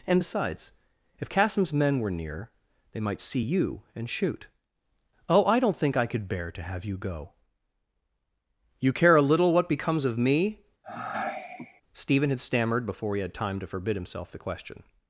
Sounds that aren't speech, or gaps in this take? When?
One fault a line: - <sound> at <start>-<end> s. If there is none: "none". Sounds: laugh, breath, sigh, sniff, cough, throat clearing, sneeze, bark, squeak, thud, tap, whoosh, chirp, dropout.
- sigh at 10.8-11.8 s